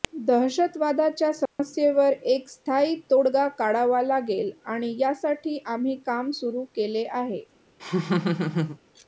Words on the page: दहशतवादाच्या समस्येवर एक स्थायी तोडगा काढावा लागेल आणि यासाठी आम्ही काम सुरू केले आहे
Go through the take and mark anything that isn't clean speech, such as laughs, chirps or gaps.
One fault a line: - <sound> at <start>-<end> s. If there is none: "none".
- dropout at 1.5-1.6 s
- laugh at 7.8-8.8 s